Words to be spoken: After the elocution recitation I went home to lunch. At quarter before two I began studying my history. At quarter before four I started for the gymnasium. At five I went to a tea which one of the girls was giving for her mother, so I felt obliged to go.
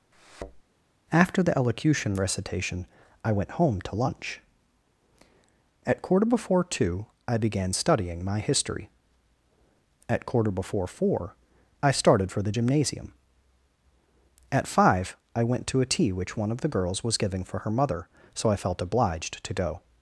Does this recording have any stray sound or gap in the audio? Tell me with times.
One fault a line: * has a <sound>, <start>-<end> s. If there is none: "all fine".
* has a thud, 0.1-0.6 s